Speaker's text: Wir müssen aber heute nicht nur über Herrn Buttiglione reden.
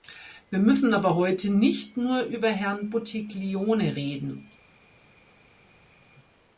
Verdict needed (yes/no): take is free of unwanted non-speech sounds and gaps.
yes